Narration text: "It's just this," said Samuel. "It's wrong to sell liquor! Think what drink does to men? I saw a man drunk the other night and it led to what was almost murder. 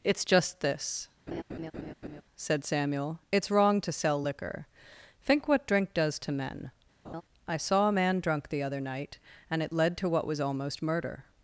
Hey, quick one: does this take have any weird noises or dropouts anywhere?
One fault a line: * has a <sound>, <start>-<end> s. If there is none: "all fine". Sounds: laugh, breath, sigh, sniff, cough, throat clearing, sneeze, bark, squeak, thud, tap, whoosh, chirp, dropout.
* has a laugh, 1.3-2.2 s
* has a laugh, 7.0-7.2 s